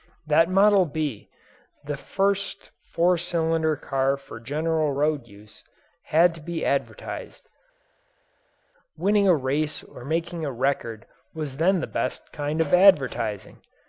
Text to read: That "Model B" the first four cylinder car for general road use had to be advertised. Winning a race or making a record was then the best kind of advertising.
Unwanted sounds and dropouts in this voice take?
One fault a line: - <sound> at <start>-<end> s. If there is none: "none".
none